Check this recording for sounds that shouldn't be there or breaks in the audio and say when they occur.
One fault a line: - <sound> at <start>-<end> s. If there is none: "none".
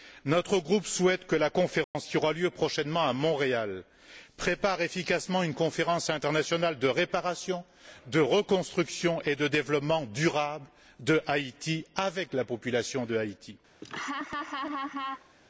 - dropout at 1.8-2.0 s
- laugh at 13.8-15.3 s